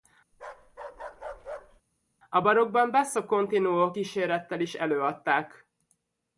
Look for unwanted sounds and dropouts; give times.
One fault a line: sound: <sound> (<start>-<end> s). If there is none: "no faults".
sound: bark (0.3-1.8 s)